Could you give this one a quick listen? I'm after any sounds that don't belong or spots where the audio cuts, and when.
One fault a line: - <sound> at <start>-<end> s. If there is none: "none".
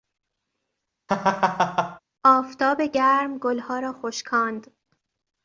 - laugh at 1.1-2.0 s